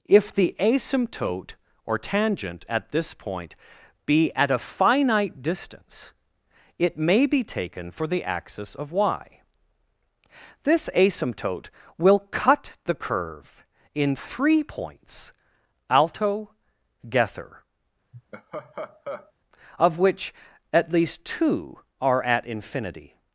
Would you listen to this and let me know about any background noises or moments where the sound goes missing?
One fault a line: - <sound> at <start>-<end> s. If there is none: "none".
- laugh at 18.1-19.3 s